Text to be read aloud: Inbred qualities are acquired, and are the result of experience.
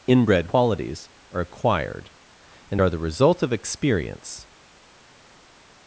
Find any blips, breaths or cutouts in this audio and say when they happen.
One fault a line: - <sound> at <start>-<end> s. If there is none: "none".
none